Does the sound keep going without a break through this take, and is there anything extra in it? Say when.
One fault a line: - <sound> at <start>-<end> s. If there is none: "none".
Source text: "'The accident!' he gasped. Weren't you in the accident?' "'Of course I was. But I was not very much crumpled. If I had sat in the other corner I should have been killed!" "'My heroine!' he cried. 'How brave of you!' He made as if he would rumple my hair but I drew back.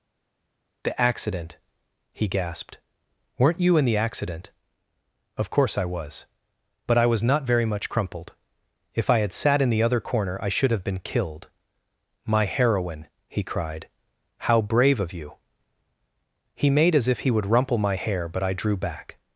none